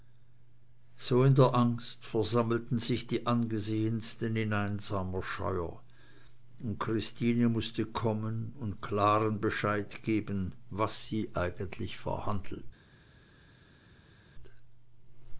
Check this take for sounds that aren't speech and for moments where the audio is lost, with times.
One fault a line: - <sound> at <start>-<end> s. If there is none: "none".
none